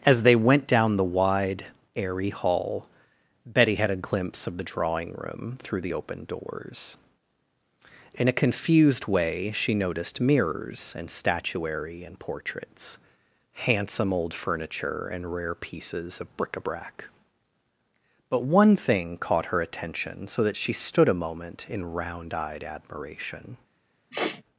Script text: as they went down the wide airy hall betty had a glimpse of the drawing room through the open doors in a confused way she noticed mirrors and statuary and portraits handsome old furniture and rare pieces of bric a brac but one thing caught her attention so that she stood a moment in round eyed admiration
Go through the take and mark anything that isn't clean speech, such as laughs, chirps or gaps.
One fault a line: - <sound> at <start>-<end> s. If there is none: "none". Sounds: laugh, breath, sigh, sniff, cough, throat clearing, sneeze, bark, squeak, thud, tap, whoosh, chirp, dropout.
- sniff at 24.1-24.4 s